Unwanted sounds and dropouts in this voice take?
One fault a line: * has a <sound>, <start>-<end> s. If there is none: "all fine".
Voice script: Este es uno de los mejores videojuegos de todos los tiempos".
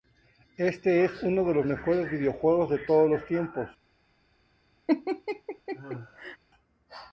* has a laugh, 4.9-6.4 s